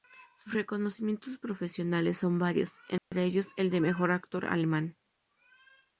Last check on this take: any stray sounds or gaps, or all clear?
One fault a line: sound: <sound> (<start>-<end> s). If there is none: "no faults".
sound: dropout (3.0-3.1 s)